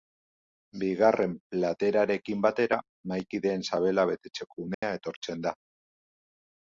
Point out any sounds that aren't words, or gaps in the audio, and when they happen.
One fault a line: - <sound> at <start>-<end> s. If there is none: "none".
- dropout at 4.7-4.8 s